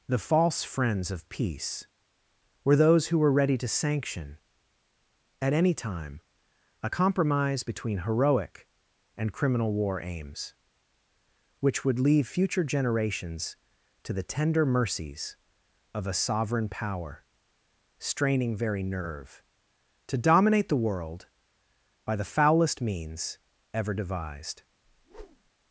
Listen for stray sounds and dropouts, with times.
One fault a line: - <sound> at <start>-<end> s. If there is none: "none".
- whoosh at 24.8-25.5 s